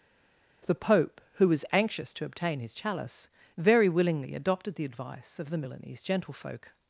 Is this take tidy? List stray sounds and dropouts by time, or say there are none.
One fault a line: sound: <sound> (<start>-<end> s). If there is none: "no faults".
no faults